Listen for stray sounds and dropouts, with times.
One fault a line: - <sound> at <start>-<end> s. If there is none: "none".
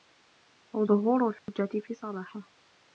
- dropout at 1.4-1.5 s